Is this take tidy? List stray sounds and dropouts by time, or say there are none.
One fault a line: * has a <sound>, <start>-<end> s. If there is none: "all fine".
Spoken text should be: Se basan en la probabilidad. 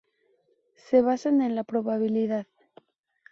all fine